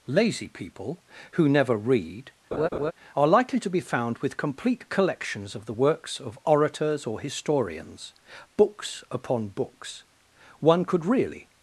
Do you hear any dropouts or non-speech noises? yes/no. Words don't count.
yes